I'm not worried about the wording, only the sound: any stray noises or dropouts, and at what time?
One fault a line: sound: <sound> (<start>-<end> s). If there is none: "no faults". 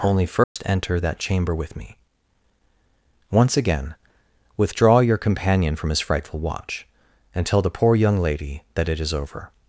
sound: dropout (0.4-0.6 s)